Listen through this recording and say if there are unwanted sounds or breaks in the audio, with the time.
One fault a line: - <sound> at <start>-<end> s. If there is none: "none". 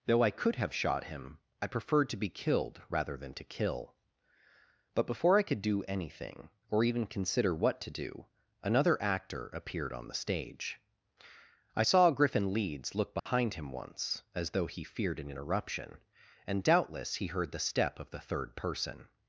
- dropout at 13.2-13.3 s